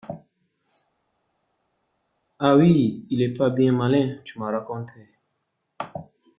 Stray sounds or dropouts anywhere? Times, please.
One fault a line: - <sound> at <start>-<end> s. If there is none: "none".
none